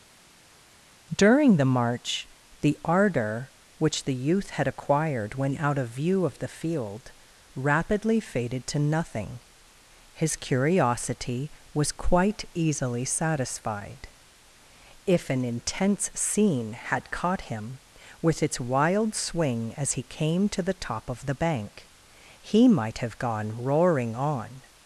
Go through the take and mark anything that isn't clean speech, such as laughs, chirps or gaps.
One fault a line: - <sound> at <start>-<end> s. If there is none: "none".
none